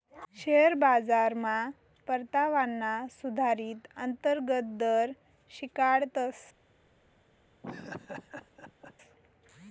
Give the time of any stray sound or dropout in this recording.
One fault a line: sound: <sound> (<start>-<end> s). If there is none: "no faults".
sound: laugh (7.6-9.0 s)